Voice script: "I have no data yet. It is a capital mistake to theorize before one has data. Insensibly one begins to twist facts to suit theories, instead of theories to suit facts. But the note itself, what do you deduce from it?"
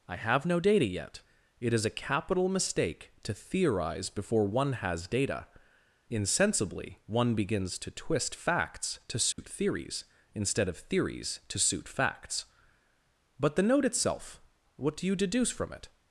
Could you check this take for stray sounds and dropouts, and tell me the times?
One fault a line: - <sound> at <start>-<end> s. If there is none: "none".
- dropout at 9.3-9.4 s